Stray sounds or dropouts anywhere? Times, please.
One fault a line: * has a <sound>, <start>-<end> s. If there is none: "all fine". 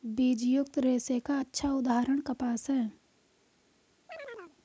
* has a chirp, 4.1-4.6 s